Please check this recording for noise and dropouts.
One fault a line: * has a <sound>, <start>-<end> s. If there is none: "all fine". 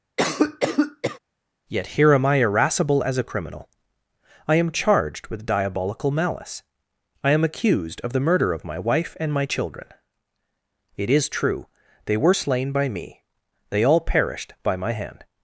* has a cough, 0.2-1.2 s